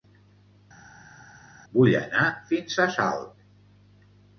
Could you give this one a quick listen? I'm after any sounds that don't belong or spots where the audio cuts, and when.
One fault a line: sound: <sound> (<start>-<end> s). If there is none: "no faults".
no faults